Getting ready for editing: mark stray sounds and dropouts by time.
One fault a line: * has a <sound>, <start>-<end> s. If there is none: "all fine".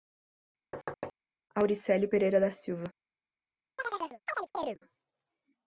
* has a thud, 0.7-1.1 s
* has a chirp, 3.8-4.8 s